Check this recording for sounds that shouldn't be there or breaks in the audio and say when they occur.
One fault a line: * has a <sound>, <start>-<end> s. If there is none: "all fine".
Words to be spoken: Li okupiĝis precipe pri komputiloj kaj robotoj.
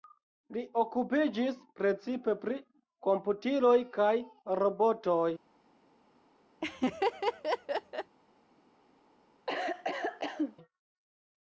* has a laugh, 6.6-8.2 s
* has a cough, 9.5-10.6 s